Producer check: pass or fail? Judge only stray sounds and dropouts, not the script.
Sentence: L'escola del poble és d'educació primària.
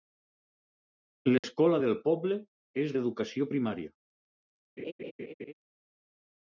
fail